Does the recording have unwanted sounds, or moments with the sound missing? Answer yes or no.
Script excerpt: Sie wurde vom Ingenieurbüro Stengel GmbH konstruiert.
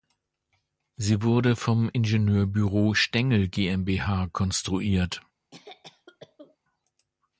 yes